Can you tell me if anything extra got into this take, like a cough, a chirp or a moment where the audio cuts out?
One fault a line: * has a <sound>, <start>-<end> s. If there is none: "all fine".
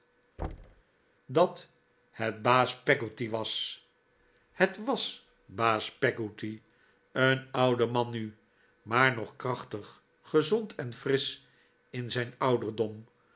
* has a thud, 0.4-0.8 s